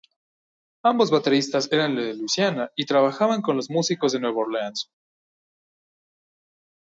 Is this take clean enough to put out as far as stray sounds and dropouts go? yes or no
yes